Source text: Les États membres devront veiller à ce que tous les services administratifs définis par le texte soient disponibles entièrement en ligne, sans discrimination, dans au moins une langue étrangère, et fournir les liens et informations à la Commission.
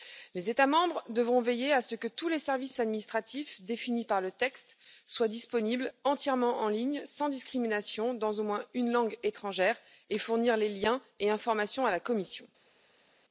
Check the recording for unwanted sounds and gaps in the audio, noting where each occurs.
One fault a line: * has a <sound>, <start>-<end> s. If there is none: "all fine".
all fine